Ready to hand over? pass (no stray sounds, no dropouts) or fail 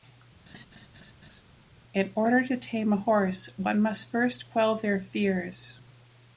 fail